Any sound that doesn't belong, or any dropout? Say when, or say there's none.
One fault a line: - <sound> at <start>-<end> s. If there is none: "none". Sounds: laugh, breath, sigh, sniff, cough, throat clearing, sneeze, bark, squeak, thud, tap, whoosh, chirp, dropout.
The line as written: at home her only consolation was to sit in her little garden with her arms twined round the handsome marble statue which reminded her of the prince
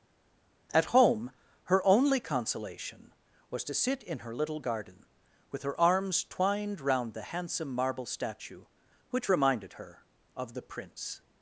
none